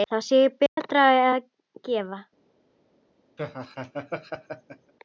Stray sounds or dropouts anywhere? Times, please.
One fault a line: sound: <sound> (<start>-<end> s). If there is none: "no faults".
sound: dropout (0.7-0.8 s)
sound: laugh (3.4-4.9 s)